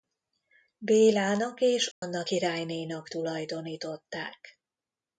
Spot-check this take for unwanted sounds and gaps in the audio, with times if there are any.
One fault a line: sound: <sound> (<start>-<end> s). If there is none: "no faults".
sound: dropout (1.9-2.0 s)